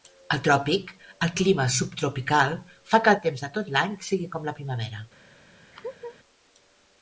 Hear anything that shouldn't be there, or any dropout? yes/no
yes